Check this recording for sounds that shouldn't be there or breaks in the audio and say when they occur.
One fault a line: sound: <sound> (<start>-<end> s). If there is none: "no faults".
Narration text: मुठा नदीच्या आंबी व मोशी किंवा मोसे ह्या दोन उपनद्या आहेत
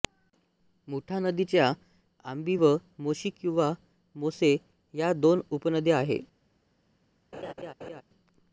sound: laugh (7.3-8.0 s)